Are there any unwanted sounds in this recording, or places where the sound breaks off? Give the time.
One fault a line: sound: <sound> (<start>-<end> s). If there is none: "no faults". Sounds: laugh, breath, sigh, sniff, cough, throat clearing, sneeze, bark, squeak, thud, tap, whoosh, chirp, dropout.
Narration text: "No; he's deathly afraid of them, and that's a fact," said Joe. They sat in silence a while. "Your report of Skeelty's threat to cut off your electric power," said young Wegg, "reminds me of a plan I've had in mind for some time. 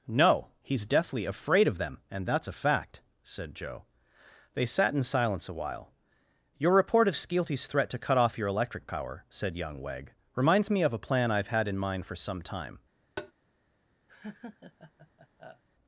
sound: tap (13.2-13.3 s)
sound: laugh (14.1-15.6 s)